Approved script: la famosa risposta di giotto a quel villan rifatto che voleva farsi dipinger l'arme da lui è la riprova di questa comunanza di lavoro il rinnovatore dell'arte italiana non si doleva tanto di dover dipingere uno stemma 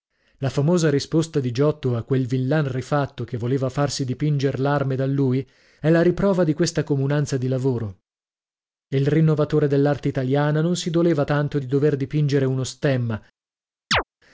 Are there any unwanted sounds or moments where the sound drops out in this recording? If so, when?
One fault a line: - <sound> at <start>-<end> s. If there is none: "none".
- chirp at 13.9-14.0 s